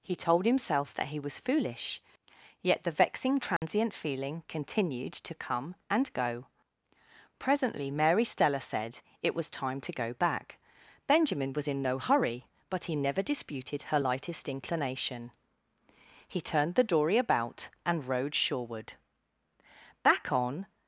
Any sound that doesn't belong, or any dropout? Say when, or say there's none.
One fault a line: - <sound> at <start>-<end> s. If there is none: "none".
- dropout at 3.6-3.6 s